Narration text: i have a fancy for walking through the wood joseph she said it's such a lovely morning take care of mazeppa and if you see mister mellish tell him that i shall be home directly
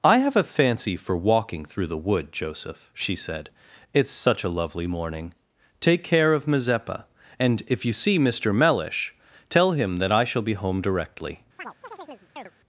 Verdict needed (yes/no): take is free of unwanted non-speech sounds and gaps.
no